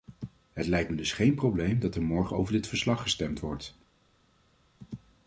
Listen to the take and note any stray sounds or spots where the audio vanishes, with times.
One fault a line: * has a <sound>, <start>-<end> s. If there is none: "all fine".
all fine